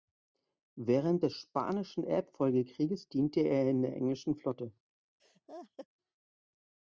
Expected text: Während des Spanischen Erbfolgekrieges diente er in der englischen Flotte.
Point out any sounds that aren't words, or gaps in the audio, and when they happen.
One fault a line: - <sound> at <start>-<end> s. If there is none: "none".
- laugh at 5.2-5.9 s